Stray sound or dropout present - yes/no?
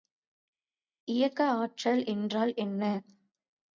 no